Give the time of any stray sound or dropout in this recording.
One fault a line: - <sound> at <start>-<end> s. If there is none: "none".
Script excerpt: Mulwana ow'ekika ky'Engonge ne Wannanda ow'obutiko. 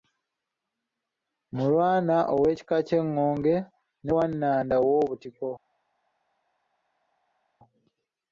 none